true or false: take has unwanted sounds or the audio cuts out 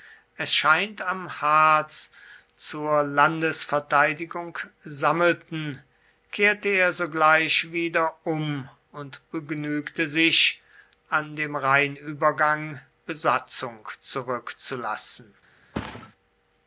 true